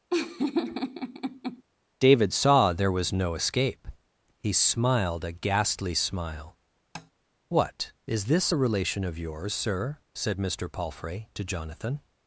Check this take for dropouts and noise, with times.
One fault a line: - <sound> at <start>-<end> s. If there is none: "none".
- laugh at 0.1-1.6 s
- tap at 6.9-7.1 s